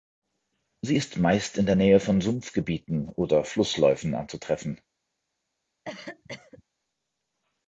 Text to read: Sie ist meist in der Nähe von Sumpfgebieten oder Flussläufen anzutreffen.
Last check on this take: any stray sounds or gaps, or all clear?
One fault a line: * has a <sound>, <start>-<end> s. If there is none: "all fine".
* has a cough, 5.8-6.6 s